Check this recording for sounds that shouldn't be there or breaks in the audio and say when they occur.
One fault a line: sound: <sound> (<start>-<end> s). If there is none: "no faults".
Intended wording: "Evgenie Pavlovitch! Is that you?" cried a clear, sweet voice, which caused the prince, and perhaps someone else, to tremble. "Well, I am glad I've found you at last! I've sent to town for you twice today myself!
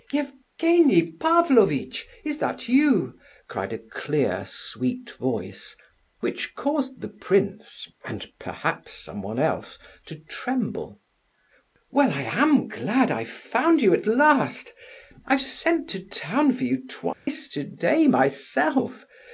sound: dropout (17.1-17.3 s)